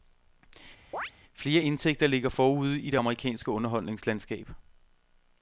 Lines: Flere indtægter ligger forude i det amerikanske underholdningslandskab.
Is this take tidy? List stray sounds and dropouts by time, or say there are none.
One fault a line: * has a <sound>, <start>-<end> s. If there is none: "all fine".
* has a chirp, 0.9-1.1 s